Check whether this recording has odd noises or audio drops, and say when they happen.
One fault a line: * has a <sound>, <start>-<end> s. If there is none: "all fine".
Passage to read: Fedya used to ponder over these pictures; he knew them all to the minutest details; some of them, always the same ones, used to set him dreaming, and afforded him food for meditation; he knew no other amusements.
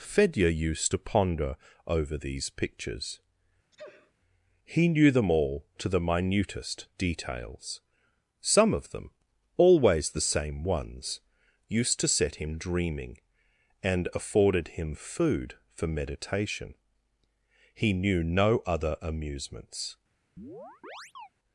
* has a sneeze, 3.7-4.1 s
* has a chirp, 20.4-21.3 s